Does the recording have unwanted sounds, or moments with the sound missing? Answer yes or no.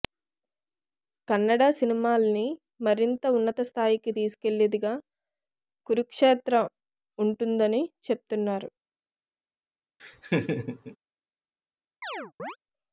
yes